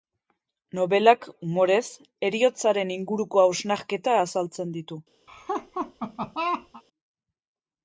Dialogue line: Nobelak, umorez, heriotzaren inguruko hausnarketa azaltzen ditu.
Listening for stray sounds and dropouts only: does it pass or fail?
fail